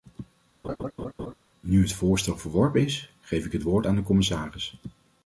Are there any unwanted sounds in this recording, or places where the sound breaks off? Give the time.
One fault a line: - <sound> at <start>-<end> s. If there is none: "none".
- laugh at 0.6-1.3 s